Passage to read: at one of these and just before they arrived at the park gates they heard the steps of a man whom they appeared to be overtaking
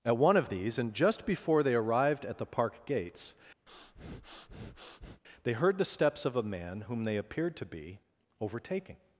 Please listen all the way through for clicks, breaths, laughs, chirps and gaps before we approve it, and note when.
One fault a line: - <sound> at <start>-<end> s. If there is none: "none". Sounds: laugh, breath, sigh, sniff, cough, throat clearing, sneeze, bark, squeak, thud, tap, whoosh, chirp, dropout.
- breath at 3.7-5.2 s